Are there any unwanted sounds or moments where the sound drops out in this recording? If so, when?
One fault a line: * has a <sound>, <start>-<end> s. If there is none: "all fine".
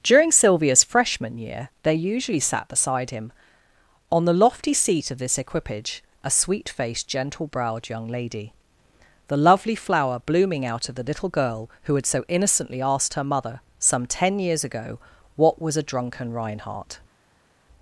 all fine